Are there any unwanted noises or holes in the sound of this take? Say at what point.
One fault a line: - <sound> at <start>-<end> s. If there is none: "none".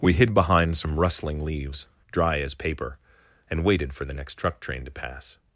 none